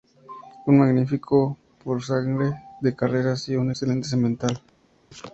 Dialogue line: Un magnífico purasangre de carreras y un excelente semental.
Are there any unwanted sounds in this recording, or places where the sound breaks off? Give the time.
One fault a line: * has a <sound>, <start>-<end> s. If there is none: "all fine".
all fine